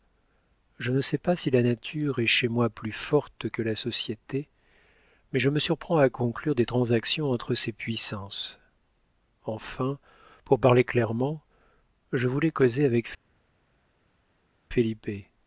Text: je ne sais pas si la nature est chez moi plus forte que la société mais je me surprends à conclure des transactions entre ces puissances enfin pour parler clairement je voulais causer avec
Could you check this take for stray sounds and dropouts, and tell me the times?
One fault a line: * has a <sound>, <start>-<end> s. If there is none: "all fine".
all fine